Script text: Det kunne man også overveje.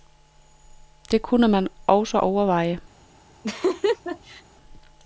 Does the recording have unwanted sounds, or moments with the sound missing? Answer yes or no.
yes